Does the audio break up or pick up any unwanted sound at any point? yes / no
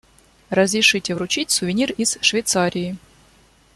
no